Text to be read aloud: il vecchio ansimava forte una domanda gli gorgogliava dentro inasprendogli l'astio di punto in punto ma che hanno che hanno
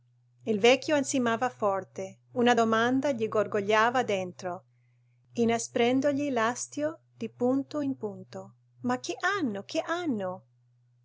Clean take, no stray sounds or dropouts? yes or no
yes